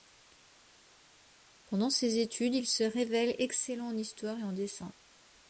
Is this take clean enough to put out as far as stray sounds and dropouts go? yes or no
yes